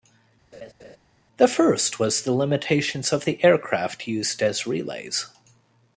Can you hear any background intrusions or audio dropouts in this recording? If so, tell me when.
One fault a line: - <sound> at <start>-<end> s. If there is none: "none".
- laugh at 0.5-1.0 s